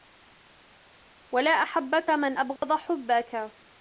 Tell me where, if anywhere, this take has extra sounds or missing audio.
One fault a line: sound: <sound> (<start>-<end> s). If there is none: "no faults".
sound: dropout (2.6-2.6 s)